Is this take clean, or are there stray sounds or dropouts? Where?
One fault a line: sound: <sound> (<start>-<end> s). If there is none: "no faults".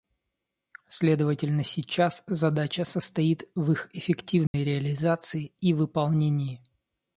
sound: dropout (4.5-4.5 s)